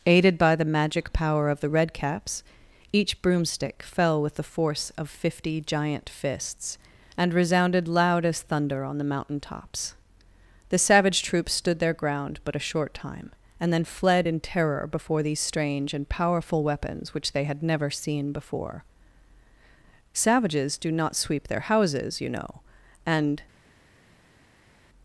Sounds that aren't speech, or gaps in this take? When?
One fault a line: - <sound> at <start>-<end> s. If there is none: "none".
none